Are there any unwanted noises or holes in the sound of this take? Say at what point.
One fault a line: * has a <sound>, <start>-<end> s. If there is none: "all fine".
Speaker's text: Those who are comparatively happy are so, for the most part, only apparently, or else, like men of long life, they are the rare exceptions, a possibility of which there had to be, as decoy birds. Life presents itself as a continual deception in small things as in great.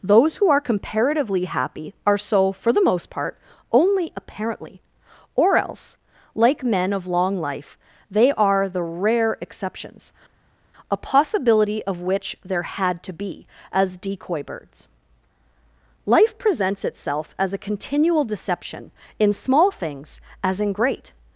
all fine